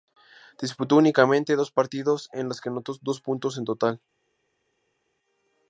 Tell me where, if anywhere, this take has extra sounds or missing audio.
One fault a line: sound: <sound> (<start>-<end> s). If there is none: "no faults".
no faults